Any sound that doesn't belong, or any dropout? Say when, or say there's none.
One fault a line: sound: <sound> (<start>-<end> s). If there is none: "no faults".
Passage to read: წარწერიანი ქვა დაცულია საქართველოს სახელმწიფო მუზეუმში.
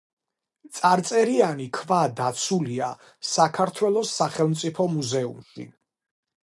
no faults